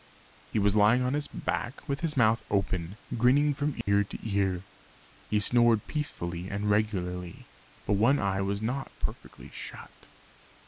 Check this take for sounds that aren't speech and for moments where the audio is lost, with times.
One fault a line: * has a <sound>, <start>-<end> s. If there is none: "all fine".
* has a dropout, 3.8-3.9 s